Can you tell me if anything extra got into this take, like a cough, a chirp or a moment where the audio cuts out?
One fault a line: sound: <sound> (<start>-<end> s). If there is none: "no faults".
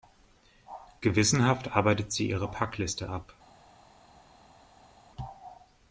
no faults